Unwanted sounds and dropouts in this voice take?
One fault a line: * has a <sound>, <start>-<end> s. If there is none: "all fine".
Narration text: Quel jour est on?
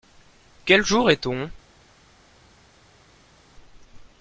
all fine